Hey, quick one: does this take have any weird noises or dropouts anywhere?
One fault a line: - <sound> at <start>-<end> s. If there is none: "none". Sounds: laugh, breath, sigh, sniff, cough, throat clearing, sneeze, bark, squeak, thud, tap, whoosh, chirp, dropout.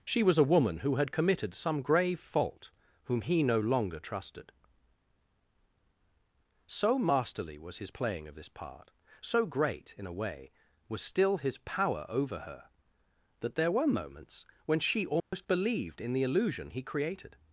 - dropout at 15.2-15.3 s